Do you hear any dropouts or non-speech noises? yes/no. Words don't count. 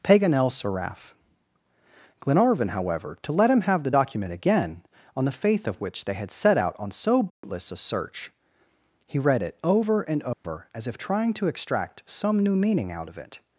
yes